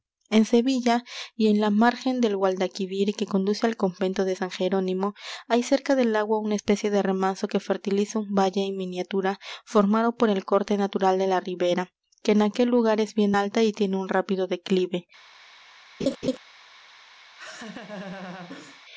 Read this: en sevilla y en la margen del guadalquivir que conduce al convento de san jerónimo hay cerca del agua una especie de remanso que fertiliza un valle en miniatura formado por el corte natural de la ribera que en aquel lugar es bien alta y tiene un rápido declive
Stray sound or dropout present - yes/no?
yes